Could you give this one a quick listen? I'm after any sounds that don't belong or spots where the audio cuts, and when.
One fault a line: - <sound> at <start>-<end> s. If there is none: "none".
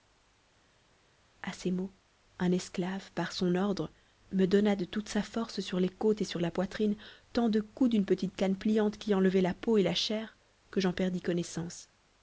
none